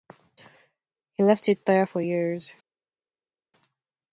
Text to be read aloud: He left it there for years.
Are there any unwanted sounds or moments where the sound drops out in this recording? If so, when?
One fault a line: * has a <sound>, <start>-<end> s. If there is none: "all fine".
all fine